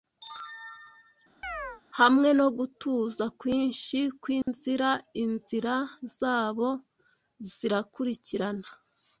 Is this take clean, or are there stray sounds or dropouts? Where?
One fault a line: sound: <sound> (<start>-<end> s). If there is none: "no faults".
sound: chirp (1.4-1.8 s)
sound: dropout (4.4-4.5 s)